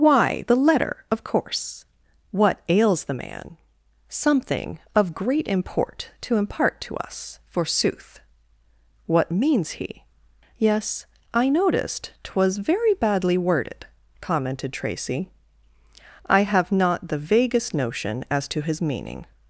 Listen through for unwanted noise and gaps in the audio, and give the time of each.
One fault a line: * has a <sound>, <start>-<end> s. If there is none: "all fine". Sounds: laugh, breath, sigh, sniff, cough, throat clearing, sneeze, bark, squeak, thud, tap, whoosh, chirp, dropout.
all fine